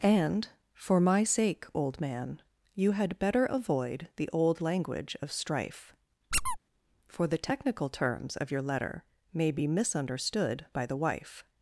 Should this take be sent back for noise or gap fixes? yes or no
yes